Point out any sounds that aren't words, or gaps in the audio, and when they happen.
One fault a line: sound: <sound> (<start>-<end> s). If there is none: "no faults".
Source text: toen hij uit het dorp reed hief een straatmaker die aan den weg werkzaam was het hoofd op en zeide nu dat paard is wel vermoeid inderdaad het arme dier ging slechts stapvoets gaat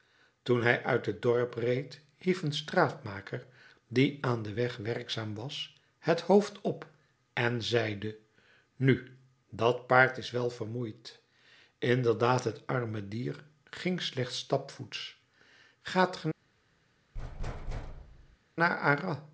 sound: thud (17.1-18.4 s)